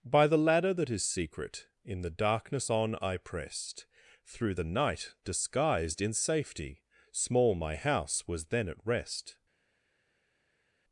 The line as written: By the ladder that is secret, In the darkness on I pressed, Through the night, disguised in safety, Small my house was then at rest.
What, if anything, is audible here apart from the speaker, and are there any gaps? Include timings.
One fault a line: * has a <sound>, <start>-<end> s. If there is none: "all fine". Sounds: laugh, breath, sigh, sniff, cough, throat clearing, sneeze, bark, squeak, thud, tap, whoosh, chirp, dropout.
all fine